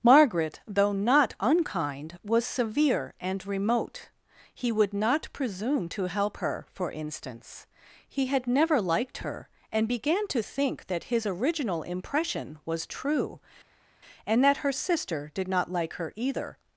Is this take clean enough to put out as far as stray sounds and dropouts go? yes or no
yes